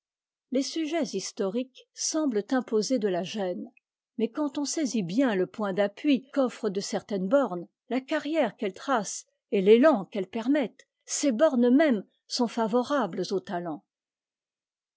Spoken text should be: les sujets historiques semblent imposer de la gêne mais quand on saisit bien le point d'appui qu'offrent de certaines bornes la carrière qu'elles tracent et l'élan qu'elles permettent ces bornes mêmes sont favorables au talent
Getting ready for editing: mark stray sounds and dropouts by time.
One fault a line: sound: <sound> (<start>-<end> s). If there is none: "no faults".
no faults